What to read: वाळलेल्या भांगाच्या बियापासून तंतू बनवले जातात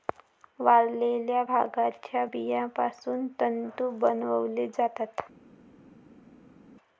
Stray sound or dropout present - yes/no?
no